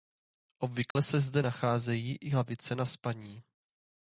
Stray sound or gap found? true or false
true